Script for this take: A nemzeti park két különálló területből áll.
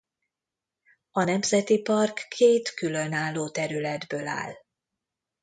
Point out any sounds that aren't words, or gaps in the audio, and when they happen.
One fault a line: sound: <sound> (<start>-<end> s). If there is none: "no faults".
no faults